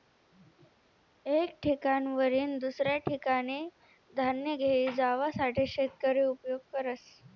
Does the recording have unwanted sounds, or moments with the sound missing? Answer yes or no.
no